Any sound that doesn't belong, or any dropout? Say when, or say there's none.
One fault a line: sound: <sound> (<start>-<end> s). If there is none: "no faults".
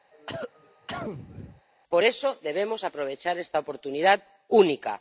sound: cough (0.1-1.6 s)